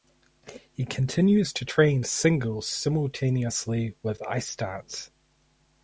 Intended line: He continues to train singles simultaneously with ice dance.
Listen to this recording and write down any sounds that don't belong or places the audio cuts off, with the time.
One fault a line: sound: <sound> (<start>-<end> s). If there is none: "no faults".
no faults